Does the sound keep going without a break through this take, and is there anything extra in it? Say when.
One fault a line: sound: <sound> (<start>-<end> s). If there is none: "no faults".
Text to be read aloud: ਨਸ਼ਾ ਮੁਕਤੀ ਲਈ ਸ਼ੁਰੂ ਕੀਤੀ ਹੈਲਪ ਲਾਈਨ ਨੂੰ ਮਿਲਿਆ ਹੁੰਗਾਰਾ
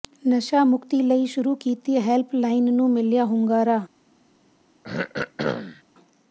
sound: throat clearing (4.8-5.8 s)